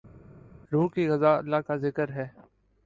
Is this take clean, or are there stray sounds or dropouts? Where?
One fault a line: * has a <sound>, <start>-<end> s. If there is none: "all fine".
all fine